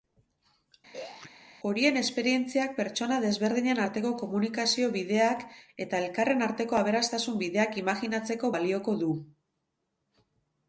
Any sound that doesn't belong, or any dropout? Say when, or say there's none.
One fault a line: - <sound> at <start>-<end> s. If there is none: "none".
- throat clearing at 0.9-1.3 s